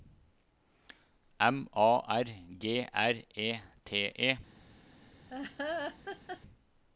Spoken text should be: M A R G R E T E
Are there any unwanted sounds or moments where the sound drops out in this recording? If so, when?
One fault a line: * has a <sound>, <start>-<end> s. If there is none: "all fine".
* has a laugh, 5.3-6.4 s